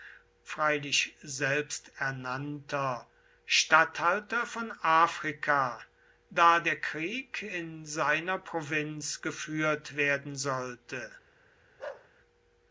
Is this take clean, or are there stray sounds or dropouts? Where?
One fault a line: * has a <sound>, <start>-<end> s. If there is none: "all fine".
* has a bark, 11.8-12.1 s